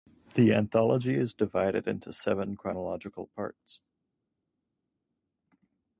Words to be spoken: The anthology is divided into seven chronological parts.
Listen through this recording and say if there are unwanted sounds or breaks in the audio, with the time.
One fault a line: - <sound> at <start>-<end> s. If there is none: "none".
none